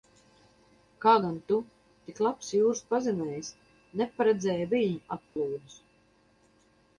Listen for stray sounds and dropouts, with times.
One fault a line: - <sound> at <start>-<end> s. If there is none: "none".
- dropout at 5.3-5.4 s